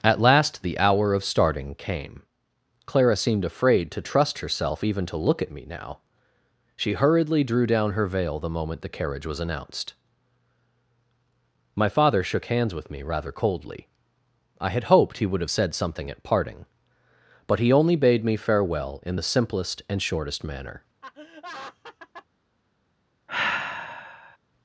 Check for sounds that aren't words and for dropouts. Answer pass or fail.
fail